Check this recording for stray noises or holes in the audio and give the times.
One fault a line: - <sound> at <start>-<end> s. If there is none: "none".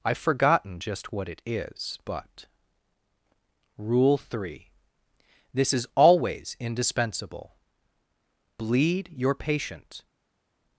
none